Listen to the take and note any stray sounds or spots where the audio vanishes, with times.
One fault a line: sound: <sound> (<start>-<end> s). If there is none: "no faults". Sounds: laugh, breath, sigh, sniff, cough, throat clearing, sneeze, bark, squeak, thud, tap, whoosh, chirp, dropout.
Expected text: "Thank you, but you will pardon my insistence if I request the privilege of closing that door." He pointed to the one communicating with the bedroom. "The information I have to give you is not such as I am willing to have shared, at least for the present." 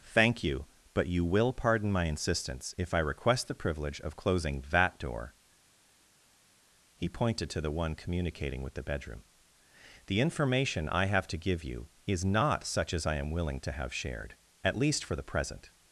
no faults